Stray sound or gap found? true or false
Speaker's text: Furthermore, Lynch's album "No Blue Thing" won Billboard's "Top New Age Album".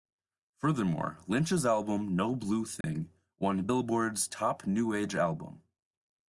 true